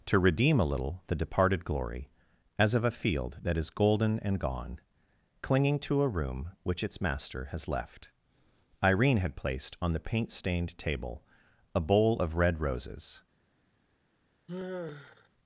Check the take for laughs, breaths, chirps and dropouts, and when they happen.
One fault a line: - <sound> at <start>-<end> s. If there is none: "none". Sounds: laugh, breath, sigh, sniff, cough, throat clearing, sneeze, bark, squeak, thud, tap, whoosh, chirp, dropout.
- sigh at 14.5-15.3 s